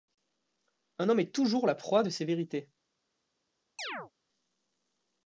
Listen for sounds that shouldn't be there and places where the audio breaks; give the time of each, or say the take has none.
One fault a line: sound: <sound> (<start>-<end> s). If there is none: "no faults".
sound: chirp (3.8-4.1 s)